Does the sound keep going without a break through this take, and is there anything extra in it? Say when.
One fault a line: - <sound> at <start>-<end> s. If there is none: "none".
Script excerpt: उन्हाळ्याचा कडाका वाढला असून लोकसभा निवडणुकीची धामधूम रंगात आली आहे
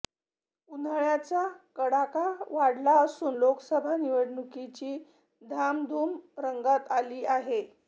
none